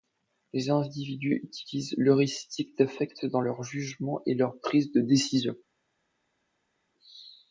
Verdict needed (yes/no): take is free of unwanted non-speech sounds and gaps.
yes